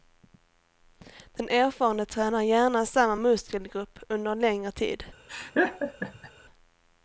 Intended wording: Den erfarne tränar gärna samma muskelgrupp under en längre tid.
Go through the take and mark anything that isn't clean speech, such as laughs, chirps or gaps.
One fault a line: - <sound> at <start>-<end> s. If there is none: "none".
- laugh at 5.3-6.3 s